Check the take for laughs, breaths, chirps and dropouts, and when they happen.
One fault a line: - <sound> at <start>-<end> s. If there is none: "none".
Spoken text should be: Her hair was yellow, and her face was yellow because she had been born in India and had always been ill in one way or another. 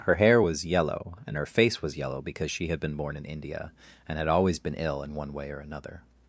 none